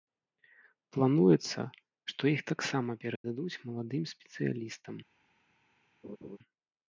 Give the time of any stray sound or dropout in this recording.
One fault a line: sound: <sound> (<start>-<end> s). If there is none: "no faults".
sound: dropout (3.2-3.2 s)
sound: laugh (6.0-6.4 s)